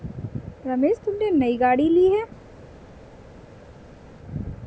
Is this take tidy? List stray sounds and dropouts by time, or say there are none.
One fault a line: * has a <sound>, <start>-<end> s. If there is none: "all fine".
all fine